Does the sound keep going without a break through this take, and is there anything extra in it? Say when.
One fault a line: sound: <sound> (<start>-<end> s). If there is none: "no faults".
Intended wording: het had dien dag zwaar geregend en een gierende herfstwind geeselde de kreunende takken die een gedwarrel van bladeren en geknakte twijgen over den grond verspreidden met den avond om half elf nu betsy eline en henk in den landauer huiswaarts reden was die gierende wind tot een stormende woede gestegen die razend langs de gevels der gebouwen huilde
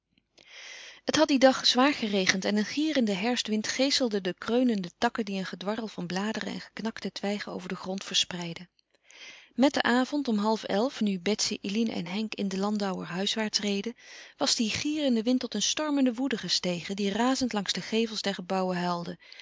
no faults